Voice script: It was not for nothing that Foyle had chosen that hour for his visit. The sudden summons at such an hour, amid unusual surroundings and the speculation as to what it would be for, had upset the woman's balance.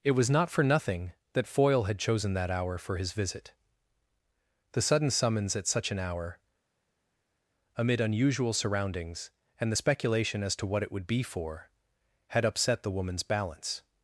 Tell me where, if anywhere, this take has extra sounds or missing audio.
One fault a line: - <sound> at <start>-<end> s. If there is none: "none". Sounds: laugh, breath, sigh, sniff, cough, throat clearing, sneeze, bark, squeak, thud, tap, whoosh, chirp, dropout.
none